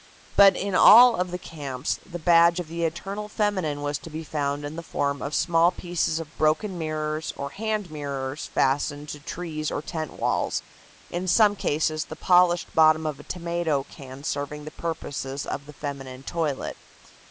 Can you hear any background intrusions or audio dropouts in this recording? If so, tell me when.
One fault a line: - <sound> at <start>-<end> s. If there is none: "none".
none